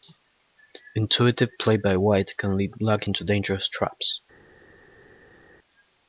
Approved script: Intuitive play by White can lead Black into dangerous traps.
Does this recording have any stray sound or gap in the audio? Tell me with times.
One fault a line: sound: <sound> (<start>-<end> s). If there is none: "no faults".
no faults